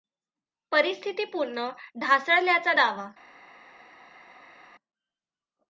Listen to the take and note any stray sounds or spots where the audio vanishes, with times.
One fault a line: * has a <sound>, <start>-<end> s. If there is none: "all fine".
all fine